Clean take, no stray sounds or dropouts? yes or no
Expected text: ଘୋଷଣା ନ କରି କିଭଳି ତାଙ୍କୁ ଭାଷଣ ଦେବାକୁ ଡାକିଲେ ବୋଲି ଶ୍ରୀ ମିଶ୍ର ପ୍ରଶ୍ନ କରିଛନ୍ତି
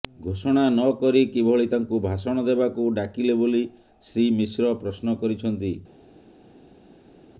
yes